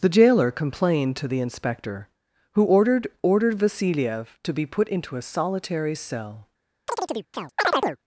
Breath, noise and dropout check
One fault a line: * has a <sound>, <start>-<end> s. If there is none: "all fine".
* has a chirp, 6.9-8.0 s